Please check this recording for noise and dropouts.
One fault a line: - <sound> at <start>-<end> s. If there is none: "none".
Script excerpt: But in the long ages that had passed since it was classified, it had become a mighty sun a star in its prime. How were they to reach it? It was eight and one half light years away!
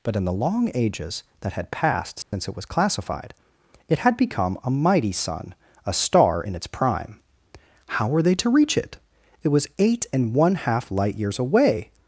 - dropout at 2.2-2.3 s